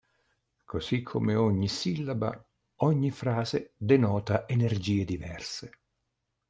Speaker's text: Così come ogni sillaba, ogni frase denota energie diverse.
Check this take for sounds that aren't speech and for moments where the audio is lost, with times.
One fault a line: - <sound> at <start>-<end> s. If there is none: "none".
none